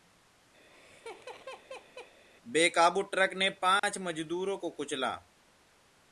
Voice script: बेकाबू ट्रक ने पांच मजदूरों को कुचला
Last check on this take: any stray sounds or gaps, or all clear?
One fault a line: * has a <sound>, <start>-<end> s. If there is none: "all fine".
* has a laugh, 0.6-2.2 s
* has a dropout, 3.8-3.8 s